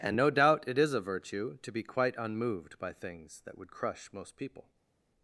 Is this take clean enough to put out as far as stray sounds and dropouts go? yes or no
yes